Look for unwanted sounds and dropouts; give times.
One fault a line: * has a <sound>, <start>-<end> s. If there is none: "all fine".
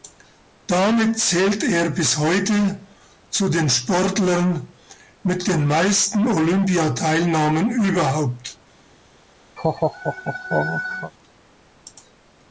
* has a laugh, 9.6-11.1 s